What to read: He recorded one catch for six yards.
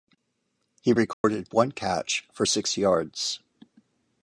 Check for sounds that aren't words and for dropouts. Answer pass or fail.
fail